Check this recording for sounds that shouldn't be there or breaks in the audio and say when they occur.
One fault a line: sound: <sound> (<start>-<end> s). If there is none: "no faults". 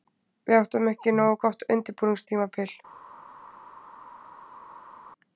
no faults